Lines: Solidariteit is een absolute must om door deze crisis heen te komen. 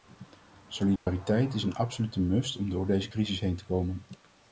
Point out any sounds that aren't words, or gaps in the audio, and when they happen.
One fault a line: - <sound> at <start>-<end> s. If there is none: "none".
- dropout at 1.0-1.1 s